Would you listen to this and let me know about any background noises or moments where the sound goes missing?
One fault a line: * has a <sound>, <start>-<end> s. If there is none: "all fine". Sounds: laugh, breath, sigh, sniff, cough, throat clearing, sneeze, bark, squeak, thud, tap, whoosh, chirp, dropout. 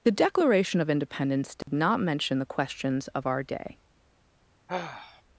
* has a dropout, 1.6-1.7 s
* has a sigh, 4.7-5.2 s